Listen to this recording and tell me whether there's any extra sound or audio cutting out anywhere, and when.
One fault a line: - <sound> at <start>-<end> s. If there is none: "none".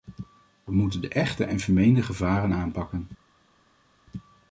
none